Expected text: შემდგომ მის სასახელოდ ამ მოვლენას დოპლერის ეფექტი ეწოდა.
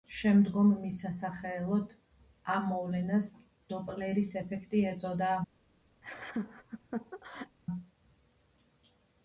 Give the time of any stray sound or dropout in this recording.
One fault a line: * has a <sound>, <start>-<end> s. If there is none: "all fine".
* has a laugh, 6.0-7.6 s